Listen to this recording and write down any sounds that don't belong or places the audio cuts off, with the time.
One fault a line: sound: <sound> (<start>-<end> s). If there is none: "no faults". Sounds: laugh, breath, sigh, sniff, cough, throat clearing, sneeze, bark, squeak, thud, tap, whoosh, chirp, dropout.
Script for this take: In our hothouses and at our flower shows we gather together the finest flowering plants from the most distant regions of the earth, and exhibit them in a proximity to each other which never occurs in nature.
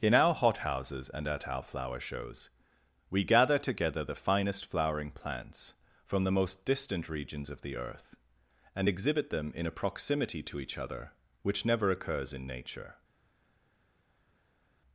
no faults